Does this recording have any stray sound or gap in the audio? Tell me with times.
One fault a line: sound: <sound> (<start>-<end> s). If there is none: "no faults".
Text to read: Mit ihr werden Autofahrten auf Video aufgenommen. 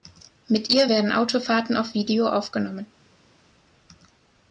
no faults